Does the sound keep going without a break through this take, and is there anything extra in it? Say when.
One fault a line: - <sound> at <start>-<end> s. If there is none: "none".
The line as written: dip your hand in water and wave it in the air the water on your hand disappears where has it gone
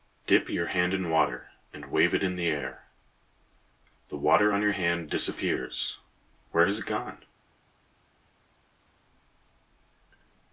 none